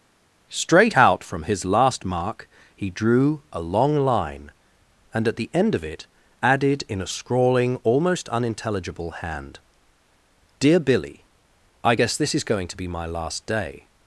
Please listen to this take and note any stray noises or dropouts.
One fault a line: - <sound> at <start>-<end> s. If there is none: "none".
none